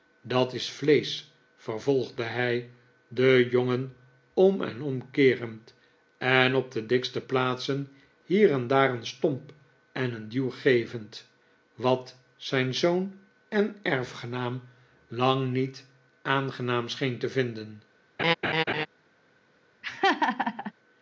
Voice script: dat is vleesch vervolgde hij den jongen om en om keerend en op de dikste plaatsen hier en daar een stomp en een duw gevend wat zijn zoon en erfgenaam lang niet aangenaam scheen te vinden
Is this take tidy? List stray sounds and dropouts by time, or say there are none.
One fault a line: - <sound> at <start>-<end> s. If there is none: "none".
- laugh at 18.2-18.9 s
- laugh at 19.8-20.7 s